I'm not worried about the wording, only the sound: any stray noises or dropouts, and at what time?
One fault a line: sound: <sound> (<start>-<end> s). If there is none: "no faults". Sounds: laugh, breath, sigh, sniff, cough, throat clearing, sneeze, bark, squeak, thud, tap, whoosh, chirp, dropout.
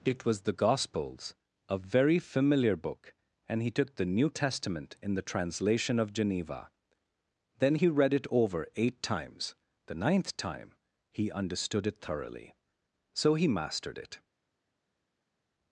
no faults